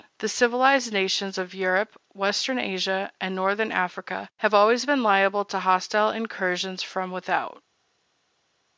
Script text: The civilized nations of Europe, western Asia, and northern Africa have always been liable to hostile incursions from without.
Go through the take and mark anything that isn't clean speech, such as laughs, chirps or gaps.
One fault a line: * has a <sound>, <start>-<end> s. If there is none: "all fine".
all fine